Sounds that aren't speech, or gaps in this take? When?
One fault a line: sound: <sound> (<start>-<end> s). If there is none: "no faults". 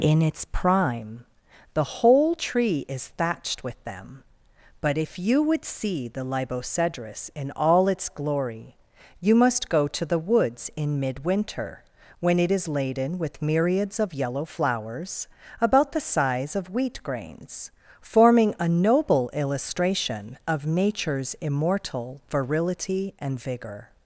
no faults